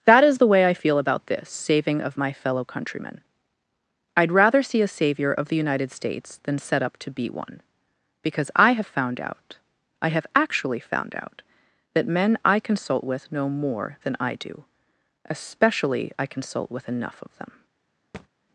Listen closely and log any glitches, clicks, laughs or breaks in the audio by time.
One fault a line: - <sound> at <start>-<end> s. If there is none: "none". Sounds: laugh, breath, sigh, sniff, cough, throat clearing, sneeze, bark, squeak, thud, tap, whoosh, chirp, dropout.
- thud at 18.1-18.3 s